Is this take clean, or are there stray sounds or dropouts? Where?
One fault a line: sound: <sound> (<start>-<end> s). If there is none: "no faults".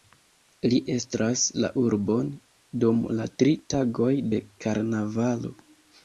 no faults